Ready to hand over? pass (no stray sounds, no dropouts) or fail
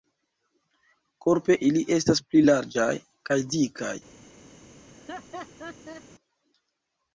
fail